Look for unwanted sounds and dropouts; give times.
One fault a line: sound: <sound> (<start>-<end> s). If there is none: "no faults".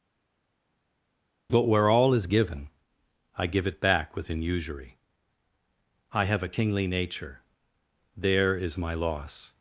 no faults